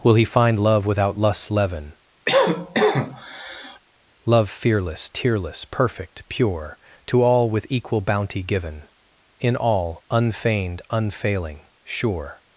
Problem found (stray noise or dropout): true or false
true